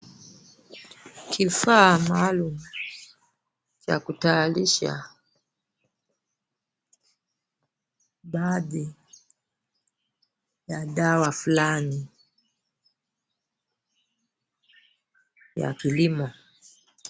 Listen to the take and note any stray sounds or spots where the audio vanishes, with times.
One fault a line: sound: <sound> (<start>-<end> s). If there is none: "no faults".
no faults